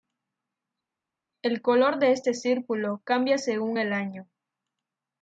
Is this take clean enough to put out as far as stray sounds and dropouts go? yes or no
yes